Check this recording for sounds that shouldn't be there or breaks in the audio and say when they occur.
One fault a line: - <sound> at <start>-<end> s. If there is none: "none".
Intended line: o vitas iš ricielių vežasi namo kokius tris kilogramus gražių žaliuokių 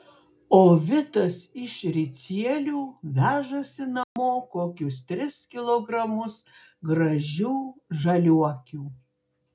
- dropout at 4.0-4.2 s